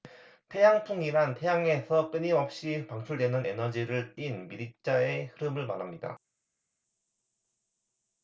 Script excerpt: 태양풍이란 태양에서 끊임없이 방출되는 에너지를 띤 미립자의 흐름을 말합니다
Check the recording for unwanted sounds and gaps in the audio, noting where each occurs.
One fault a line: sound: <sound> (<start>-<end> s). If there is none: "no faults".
no faults